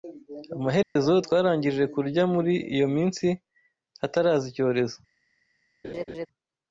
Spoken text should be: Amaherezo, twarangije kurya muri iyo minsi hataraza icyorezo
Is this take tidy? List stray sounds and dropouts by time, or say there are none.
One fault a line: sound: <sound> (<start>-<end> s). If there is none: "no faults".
sound: dropout (0.8-1.0 s)
sound: laugh (5.8-6.3 s)